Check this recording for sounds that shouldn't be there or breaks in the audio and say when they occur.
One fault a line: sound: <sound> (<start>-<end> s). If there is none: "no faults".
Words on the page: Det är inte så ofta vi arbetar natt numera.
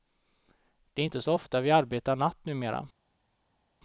no faults